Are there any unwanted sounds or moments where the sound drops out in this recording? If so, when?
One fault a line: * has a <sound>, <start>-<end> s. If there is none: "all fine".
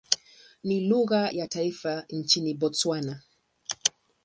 all fine